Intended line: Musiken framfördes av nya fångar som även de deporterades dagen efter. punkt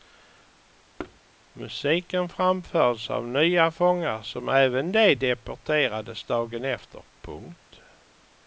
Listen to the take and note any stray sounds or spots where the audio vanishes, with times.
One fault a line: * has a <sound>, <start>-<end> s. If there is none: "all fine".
* has a thud, 1.0-1.2 s